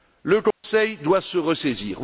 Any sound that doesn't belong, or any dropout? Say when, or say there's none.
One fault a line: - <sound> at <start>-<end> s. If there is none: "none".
- dropout at 0.5-0.6 s